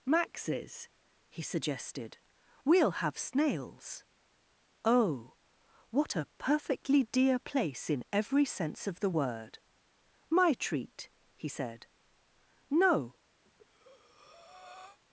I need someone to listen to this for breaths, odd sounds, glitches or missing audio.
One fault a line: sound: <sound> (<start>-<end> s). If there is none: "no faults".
sound: breath (13.4-15.0 s)